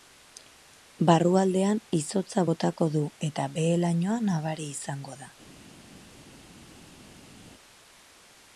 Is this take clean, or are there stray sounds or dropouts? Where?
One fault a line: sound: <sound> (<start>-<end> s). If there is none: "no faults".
no faults